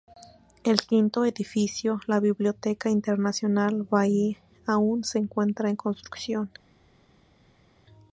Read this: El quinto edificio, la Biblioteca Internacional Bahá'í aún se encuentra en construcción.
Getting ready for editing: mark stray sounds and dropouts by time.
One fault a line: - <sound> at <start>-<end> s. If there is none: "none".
none